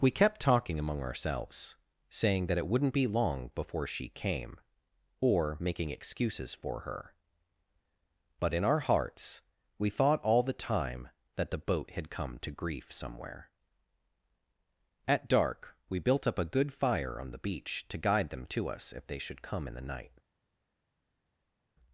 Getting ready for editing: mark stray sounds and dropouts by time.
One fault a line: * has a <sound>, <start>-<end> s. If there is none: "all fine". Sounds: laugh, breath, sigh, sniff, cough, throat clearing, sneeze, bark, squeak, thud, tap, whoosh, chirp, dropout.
all fine